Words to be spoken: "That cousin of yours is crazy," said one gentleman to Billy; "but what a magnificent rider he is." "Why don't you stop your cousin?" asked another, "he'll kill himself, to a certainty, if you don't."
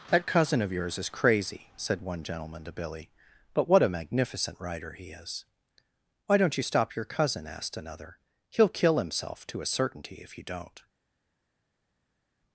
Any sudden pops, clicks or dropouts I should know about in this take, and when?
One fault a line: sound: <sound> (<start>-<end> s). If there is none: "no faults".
no faults